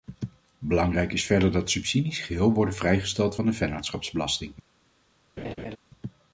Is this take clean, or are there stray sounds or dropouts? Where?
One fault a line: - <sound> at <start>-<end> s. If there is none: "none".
- laugh at 5.4-5.8 s